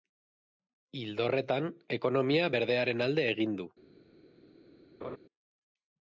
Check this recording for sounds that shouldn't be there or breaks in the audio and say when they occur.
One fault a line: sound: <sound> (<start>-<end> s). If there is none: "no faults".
sound: laugh (5.0-5.2 s)